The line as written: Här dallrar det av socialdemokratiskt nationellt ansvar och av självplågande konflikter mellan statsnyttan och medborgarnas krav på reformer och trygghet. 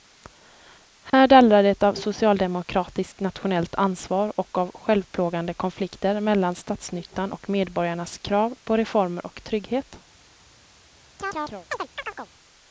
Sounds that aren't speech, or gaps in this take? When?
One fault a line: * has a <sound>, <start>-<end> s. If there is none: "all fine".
* has a dropout, 1.1-1.1 s
* has a chirp, 11.2-12.3 s